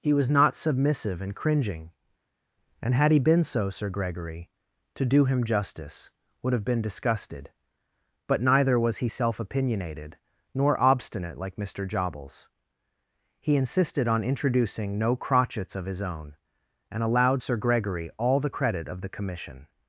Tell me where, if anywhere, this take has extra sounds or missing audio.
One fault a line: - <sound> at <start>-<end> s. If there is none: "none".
none